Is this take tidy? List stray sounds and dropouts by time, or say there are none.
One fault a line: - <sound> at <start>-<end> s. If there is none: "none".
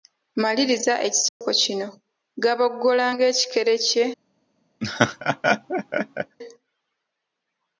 - dropout at 1.3-1.4 s
- laugh at 4.8-6.4 s